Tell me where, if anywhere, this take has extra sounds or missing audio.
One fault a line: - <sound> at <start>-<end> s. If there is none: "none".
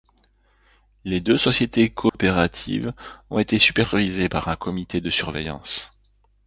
- dropout at 2.1-2.1 s